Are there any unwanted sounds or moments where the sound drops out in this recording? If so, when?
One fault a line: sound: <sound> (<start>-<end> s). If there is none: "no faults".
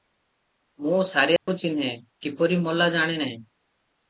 sound: dropout (1.4-1.5 s)